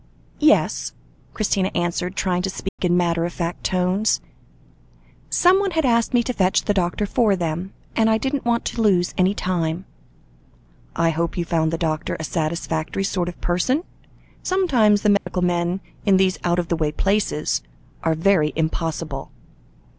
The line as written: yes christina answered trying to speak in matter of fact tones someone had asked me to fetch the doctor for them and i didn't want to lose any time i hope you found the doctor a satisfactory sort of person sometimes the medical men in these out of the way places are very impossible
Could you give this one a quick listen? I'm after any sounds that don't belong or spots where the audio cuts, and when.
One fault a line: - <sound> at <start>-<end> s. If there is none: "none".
- dropout at 2.7-2.8 s
- dropout at 15.2-15.3 s